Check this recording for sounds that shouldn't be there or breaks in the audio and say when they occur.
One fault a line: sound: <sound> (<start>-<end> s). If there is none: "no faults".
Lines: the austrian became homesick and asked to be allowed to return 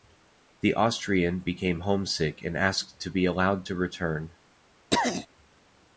sound: throat clearing (4.9-5.3 s)